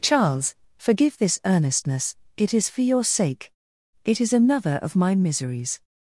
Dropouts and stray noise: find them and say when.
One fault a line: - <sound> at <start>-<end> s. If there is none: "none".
none